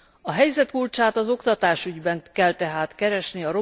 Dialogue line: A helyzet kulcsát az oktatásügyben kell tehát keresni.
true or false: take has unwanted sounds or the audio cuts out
false